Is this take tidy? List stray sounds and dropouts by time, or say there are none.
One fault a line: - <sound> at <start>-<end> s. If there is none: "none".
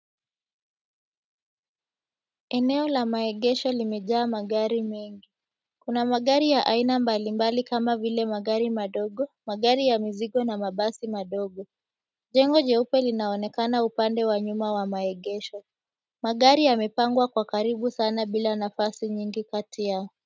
none